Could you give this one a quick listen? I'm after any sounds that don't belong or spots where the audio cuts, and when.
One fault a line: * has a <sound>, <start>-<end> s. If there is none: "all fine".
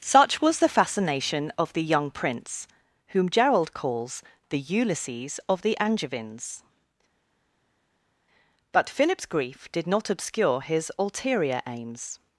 all fine